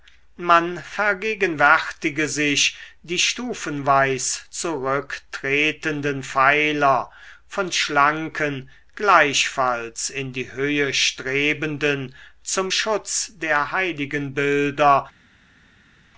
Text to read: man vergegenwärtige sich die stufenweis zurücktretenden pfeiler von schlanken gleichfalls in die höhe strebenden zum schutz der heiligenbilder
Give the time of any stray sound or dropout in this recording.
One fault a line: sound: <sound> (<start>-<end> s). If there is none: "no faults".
no faults